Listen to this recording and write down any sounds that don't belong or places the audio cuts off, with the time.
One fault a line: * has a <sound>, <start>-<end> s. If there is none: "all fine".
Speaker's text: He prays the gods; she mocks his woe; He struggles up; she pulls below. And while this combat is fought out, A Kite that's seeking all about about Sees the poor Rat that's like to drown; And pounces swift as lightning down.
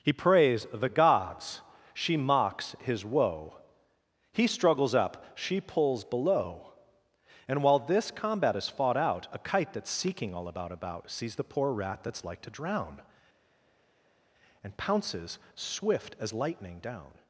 all fine